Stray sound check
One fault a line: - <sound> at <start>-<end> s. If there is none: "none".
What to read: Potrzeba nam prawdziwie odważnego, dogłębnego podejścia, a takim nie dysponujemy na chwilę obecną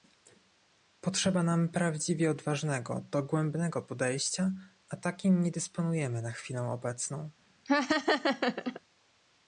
- laugh at 7.7-8.8 s